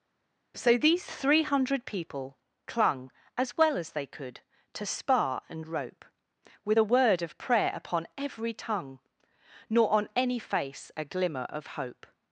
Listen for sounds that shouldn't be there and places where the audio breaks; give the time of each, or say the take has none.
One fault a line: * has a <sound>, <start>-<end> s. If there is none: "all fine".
all fine